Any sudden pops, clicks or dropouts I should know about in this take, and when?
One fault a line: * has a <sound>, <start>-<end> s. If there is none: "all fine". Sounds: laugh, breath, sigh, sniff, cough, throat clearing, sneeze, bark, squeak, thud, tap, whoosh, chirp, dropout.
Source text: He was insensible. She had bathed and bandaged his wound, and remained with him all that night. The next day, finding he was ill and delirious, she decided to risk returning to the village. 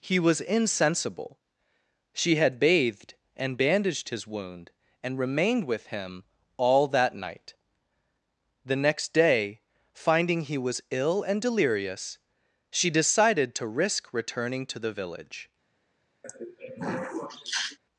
* has a throat clearing, 16.2-17.8 s